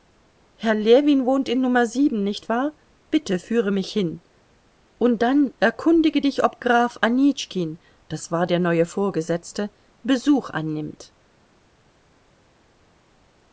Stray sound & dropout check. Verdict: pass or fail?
pass